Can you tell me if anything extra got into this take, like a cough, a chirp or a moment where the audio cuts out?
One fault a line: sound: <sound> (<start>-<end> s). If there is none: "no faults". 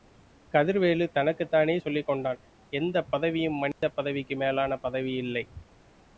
sound: dropout (3.7-3.8 s)